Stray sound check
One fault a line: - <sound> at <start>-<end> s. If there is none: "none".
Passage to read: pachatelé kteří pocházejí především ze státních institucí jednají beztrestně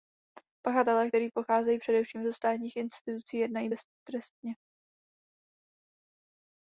none